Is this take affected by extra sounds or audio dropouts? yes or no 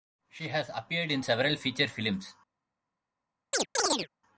yes